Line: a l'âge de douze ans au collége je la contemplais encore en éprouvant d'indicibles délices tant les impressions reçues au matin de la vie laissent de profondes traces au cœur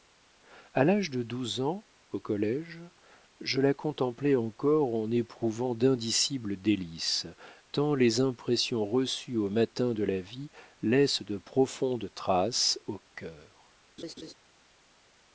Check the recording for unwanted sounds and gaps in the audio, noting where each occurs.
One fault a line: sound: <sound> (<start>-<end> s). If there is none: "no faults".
sound: laugh (14.0-14.3 s)